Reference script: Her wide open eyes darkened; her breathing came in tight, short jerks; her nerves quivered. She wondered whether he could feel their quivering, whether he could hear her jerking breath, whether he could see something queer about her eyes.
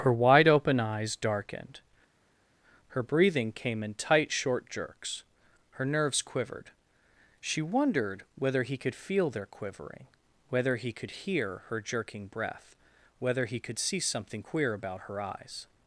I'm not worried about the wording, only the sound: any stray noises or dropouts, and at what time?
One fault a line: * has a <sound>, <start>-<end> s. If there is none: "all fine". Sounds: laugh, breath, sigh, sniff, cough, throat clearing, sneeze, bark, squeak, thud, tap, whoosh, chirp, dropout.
all fine